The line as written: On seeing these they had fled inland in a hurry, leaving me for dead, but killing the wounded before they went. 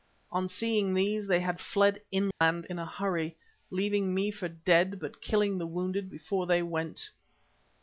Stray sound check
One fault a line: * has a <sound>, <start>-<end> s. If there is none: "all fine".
* has a dropout, 2.3-2.4 s